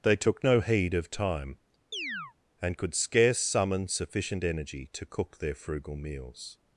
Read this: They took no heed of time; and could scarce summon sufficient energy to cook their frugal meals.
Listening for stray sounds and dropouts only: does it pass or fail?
fail